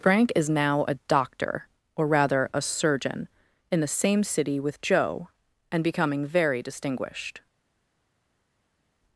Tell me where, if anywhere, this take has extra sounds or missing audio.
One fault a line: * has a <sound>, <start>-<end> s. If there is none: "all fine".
all fine